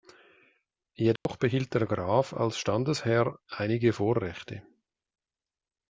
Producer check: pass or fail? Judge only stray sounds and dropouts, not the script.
fail